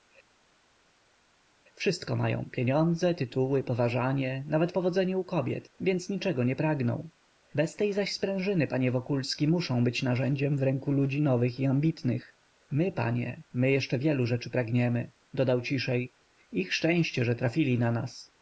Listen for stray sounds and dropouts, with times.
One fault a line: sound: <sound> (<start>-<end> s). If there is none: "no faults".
no faults